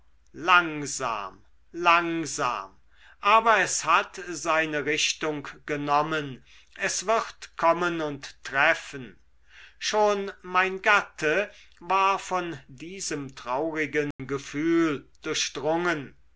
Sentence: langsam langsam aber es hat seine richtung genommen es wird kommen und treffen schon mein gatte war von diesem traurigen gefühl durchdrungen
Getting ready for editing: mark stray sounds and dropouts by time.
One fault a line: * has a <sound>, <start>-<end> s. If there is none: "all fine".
* has a dropout, 14.1-14.2 s